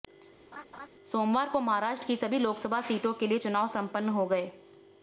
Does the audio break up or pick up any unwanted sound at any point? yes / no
yes